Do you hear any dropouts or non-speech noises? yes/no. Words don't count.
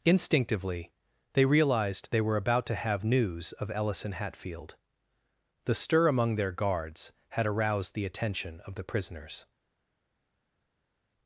no